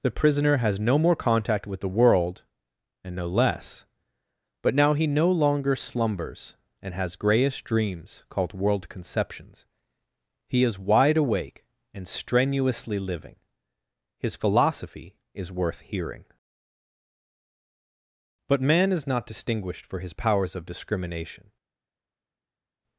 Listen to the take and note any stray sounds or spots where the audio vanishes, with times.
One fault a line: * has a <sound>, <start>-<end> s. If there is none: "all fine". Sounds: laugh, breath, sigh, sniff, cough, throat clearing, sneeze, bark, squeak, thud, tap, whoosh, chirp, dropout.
all fine